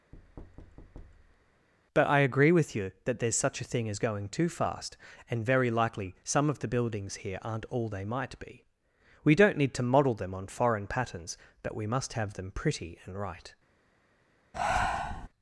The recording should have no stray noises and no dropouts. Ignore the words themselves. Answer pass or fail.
fail